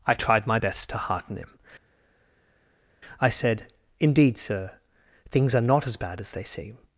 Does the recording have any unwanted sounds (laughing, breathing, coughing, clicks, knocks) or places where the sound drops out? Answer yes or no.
no